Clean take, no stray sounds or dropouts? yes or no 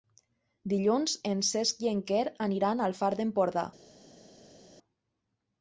yes